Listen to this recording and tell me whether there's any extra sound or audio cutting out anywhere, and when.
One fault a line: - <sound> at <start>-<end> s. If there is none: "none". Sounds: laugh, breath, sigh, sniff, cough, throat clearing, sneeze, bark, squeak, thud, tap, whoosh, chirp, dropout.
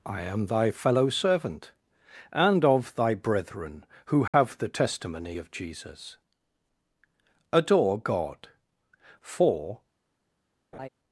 - dropout at 4.3-4.3 s
- laugh at 10.7-10.9 s